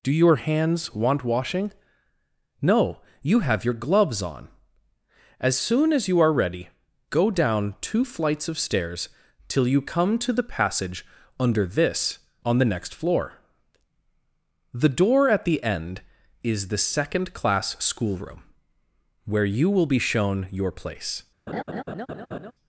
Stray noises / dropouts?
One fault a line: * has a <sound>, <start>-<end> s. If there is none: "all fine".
* has a laugh, 21.5-22.5 s